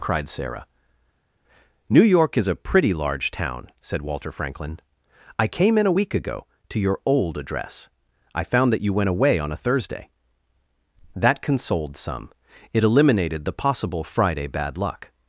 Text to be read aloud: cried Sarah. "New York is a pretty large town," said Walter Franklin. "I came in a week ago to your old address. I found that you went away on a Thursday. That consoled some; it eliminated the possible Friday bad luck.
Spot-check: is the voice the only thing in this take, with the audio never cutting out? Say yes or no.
yes